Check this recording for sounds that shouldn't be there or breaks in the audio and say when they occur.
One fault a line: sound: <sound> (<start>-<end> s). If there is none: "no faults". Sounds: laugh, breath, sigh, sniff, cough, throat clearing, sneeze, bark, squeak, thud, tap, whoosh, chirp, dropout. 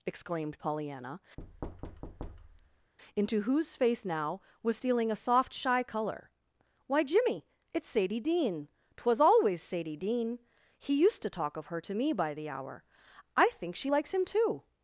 sound: thud (1.4-2.9 s)